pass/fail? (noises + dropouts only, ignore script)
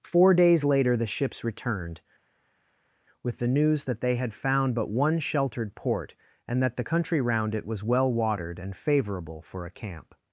pass